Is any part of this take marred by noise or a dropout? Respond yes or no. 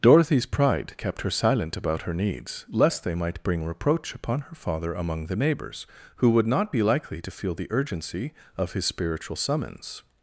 no